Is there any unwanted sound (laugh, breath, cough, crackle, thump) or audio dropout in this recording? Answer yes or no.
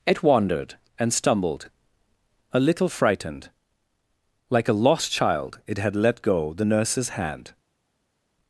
no